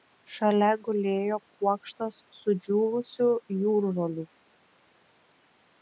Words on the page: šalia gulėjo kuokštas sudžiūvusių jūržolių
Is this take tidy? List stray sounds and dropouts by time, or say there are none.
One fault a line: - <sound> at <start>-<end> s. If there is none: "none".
none